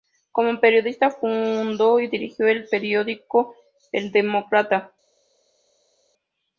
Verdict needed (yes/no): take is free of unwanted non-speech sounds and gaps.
yes